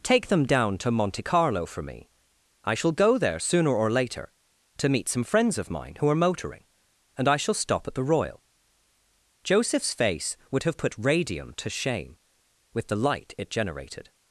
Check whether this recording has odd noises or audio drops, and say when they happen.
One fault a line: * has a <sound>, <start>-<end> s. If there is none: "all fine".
all fine